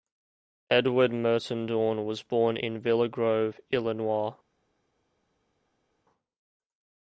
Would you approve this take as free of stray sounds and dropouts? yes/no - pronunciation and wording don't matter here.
yes